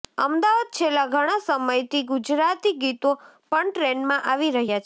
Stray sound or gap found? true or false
false